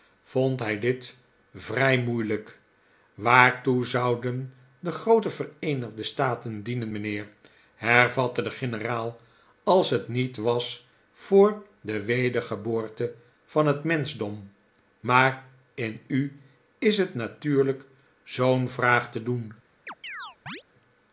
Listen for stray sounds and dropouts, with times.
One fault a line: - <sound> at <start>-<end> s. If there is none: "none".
- chirp at 19.9-20.6 s